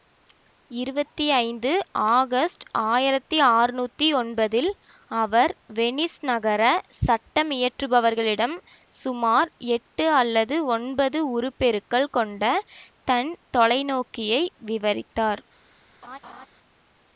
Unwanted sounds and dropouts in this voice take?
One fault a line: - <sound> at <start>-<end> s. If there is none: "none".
- laugh at 16.0-16.5 s